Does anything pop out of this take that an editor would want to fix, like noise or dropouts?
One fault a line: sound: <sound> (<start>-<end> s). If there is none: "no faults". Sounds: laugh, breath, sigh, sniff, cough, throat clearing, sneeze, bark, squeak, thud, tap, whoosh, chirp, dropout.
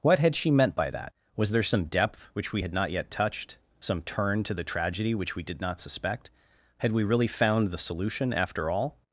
no faults